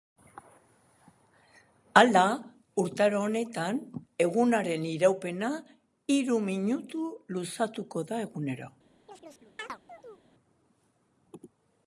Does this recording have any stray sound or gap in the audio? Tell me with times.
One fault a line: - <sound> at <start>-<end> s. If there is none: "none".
- chirp at 9.1-10.3 s